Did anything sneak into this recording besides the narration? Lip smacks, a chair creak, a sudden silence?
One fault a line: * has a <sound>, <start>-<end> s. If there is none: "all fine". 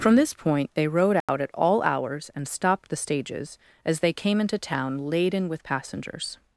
* has a dropout, 1.2-1.3 s